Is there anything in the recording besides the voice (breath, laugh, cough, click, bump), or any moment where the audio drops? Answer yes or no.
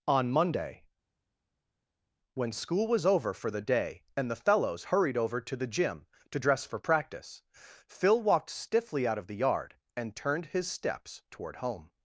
no